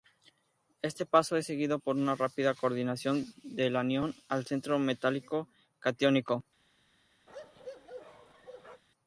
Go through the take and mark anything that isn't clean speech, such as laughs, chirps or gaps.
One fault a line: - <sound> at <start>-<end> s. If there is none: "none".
- bark at 7.3-8.8 s